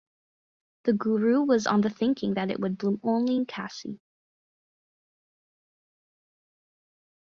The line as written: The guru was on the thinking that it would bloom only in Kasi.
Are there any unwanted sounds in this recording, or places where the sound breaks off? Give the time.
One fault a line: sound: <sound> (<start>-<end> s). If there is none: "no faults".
no faults